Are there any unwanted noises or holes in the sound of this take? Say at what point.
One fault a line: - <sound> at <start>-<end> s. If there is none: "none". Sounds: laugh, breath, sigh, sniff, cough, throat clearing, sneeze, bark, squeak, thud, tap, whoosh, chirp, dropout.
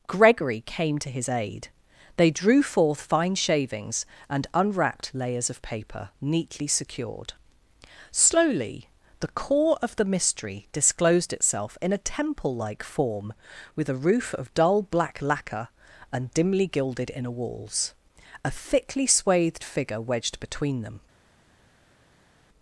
none